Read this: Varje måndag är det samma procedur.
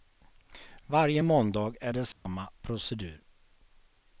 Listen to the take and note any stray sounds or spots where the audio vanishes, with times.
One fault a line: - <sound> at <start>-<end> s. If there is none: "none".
- dropout at 2.1-2.3 s